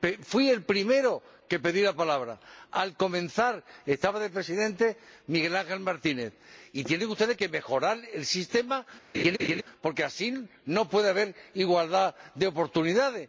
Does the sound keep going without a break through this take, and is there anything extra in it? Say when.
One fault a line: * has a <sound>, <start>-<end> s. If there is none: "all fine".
* has a laugh, 9.1-9.6 s